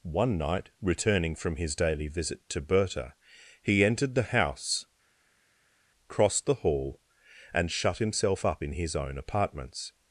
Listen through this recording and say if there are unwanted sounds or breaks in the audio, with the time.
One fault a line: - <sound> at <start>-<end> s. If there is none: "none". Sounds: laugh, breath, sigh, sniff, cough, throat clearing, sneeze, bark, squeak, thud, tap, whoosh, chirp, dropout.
none